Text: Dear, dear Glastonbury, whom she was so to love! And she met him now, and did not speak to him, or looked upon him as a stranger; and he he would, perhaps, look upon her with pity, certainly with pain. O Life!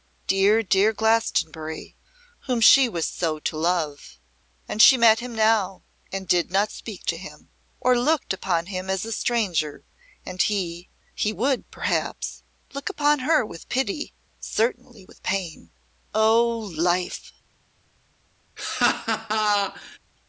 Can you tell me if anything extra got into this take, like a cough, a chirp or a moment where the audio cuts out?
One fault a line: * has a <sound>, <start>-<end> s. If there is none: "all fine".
* has a laugh, 18.6-20.0 s